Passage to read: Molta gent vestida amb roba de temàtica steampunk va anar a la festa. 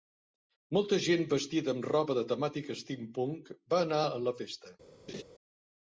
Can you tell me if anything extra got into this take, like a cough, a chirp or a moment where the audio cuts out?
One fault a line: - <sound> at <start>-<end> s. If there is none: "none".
- laugh at 5.1-5.2 s